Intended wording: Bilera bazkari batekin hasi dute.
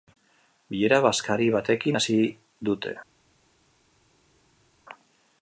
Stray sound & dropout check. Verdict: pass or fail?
pass